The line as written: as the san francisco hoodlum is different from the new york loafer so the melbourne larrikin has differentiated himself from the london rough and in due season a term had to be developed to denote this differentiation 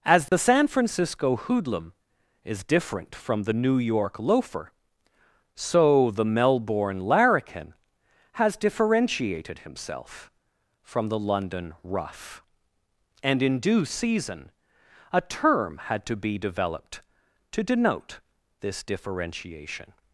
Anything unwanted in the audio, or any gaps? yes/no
yes